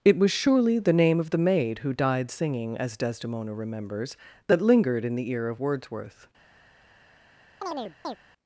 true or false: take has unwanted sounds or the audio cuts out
true